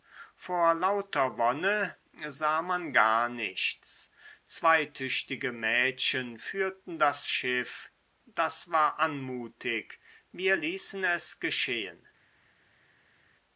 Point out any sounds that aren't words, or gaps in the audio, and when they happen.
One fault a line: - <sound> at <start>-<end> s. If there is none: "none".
none